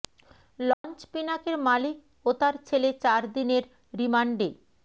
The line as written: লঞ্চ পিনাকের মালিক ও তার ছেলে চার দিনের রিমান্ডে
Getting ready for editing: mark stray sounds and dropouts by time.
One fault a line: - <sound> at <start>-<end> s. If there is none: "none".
- dropout at 0.7-0.8 s